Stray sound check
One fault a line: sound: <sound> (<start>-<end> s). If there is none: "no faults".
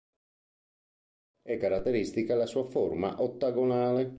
no faults